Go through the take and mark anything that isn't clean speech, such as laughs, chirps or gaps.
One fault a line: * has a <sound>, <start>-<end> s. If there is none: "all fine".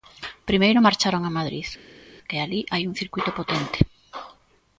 all fine